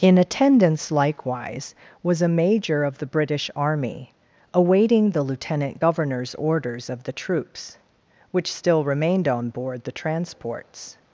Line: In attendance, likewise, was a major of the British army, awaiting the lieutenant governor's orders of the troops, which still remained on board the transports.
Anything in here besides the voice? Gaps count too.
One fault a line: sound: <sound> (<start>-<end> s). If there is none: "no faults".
no faults